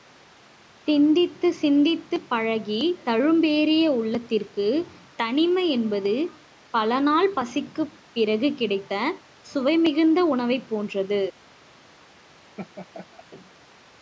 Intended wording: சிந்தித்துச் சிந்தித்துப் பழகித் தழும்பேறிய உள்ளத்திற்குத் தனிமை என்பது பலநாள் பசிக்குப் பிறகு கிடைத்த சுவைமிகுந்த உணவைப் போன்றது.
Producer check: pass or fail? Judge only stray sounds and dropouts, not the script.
fail